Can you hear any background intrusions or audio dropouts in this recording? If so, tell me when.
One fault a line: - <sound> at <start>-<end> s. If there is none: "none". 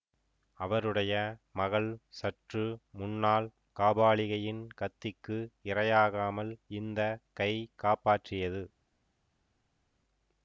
none